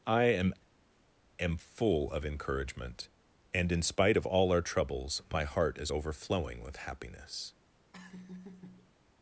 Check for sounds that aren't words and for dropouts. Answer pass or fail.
fail